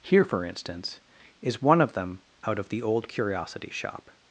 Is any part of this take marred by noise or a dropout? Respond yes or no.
no